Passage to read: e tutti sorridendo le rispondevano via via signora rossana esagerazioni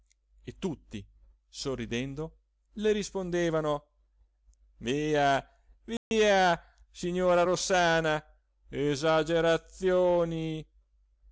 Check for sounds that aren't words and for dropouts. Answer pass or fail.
fail